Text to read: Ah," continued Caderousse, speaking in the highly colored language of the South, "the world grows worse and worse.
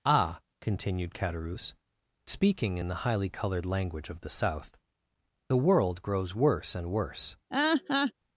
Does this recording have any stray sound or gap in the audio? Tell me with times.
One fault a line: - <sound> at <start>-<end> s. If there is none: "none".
- laugh at 7.5-8.1 s